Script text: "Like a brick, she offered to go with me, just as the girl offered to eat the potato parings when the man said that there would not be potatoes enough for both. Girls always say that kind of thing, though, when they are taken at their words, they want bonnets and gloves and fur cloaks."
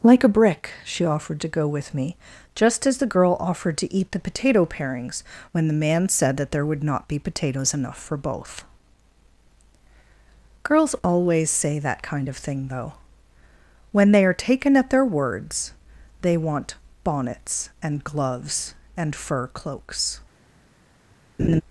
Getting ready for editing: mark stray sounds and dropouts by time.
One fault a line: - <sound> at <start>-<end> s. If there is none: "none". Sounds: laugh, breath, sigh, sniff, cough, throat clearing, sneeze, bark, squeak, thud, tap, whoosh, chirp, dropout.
- laugh at 21.4-21.6 s